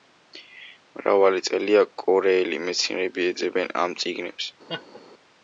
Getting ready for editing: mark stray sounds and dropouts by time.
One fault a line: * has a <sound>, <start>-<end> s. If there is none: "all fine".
* has a laugh, 4.7-5.0 s